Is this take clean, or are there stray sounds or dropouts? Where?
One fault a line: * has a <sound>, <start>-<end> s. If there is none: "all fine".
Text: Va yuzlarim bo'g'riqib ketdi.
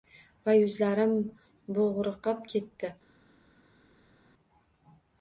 all fine